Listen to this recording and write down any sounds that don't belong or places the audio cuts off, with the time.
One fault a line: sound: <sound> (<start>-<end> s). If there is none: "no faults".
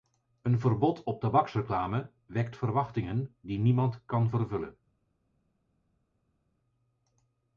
no faults